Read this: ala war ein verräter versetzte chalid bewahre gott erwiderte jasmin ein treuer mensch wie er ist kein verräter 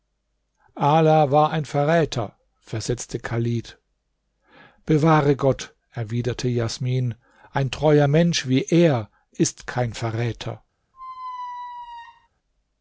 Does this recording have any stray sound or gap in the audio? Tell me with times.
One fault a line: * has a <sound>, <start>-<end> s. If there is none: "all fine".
* has a squeak, 10.9-12.3 s